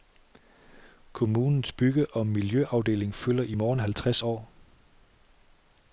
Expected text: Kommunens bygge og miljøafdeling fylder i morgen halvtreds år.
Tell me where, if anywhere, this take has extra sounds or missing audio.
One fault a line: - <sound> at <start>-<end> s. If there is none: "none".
none